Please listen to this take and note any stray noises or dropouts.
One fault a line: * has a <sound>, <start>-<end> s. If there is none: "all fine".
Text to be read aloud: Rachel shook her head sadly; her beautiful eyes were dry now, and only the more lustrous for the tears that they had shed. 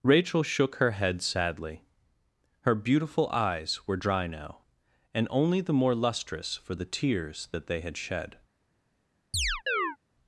* has a chirp, 9.3-10.0 s